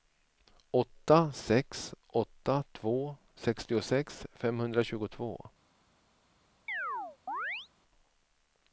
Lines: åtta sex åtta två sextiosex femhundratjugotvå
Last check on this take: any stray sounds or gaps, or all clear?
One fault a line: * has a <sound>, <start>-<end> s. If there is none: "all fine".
* has a chirp, 6.7-7.7 s